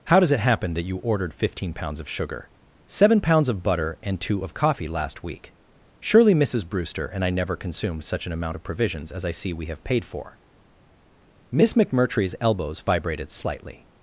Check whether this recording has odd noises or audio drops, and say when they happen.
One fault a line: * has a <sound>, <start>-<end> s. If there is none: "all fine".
all fine